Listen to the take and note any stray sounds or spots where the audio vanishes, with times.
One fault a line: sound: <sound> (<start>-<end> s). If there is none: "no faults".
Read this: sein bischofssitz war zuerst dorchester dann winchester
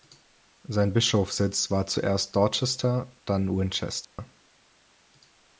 sound: dropout (4.0-4.2 s)